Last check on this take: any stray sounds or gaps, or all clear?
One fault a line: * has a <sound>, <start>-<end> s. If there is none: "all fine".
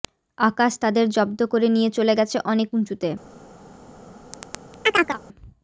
* has a chirp, 4.3-5.2 s